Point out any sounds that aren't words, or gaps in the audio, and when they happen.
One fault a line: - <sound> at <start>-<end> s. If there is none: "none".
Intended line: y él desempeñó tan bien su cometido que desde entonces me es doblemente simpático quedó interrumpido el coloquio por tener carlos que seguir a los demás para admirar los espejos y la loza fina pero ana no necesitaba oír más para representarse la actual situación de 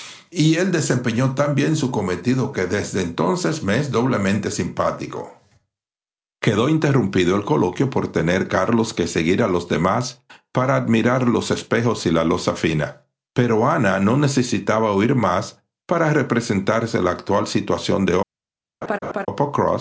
- laugh at 18.8-19.3 s